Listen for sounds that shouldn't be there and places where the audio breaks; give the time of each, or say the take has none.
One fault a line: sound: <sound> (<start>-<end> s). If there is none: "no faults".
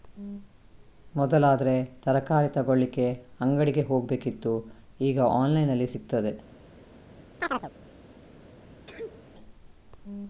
sound: chirp (7.4-7.7 s)
sound: sneeze (8.9-9.3 s)